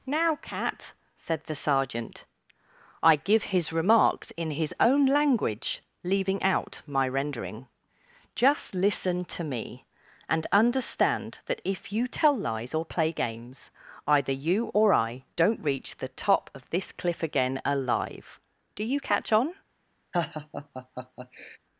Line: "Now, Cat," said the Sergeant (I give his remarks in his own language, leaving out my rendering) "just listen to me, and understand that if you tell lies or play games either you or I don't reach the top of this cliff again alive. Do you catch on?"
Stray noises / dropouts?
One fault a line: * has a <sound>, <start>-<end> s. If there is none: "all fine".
* has a laugh, 20.1-21.6 s